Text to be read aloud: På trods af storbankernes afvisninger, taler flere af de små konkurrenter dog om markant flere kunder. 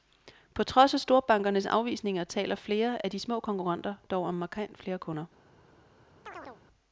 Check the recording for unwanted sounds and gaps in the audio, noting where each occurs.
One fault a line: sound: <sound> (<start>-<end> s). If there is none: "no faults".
sound: chirp (6.3-6.6 s)